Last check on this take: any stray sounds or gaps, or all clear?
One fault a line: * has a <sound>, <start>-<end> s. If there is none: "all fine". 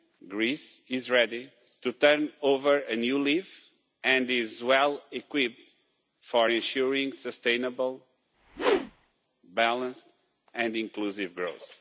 * has a whoosh, 8.3-9.1 s